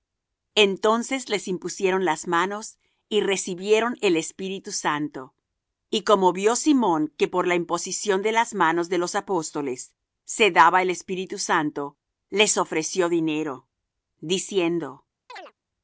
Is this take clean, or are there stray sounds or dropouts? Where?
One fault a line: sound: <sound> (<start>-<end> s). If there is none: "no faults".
sound: chirp (15.3-15.5 s)